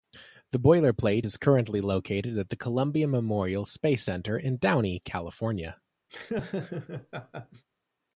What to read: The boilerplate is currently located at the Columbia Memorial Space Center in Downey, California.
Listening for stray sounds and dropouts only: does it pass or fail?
fail